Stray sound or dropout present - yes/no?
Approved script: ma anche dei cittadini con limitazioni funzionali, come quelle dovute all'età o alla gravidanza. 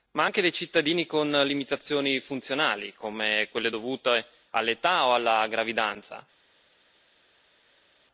no